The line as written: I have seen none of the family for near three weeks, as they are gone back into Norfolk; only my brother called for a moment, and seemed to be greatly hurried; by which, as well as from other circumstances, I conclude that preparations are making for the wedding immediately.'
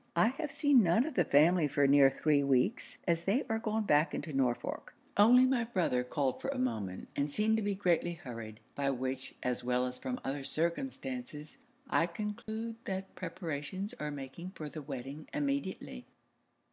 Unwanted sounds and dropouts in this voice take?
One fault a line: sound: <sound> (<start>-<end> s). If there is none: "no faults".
sound: dropout (12.4-12.5 s)